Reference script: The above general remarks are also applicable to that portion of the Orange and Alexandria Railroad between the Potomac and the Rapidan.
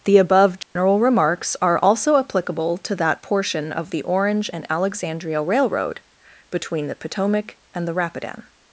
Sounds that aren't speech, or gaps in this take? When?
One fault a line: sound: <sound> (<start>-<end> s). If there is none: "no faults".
sound: dropout (0.6-0.8 s)